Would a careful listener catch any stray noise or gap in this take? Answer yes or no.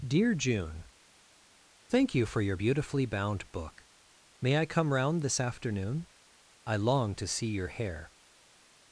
no